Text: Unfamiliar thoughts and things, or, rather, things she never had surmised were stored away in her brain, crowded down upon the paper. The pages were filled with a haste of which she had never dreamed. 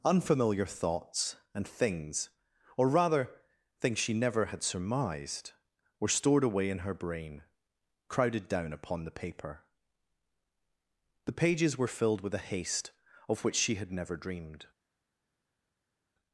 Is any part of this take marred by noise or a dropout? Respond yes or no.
no